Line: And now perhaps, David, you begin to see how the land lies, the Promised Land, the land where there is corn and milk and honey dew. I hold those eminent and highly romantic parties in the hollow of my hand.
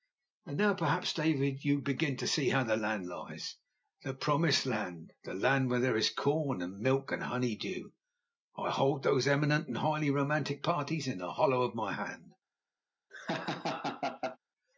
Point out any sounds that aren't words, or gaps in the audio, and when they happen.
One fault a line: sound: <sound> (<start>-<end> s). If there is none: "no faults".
sound: laugh (13.1-14.4 s)